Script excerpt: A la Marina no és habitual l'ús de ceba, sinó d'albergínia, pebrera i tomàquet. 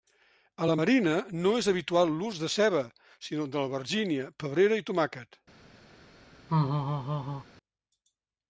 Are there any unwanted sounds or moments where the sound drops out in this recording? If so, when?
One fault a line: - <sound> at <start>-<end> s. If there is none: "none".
- laugh at 6.5-7.4 s